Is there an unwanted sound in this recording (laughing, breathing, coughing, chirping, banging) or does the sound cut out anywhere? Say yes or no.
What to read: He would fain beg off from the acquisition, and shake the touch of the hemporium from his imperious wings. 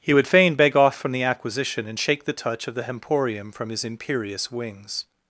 no